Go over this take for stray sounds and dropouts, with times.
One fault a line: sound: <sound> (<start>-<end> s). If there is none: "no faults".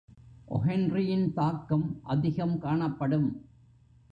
no faults